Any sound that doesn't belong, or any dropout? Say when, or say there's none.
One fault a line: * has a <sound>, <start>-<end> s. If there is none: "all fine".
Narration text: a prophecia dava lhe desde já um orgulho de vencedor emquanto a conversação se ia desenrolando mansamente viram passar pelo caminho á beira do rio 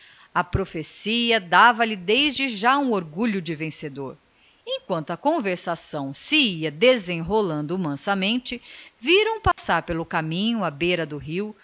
* has a dropout, 9.5-9.6 s